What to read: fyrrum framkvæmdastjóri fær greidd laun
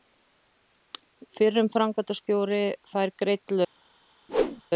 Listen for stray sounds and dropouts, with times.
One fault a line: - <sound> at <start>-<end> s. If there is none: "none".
- whoosh at 4.3-4.6 s